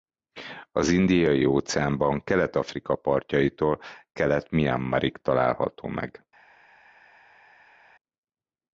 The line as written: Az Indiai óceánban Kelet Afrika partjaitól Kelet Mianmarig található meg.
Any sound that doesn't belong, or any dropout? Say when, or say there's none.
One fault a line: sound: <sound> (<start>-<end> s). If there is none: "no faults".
no faults